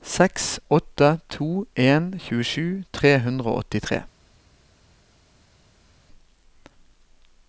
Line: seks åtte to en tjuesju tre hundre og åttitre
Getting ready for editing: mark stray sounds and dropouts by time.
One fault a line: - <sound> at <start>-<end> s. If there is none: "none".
none